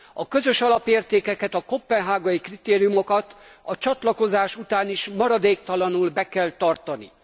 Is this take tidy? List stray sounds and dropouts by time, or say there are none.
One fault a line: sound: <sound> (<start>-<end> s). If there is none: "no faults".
no faults